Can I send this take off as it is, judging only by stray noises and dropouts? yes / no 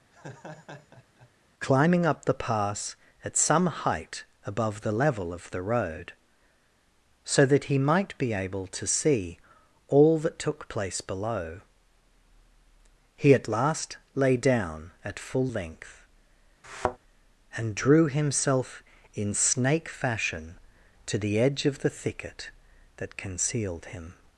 no